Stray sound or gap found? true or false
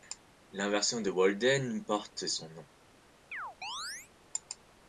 true